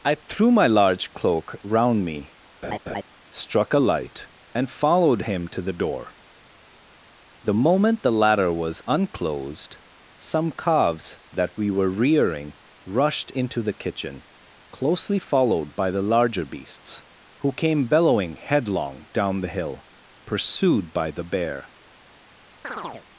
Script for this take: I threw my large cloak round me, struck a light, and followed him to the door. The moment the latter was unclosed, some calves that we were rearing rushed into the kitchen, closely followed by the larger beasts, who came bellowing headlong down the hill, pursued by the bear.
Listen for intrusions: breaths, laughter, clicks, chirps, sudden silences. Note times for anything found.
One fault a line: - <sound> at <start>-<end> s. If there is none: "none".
- laugh at 2.6-3.0 s
- chirp at 22.6-23.1 s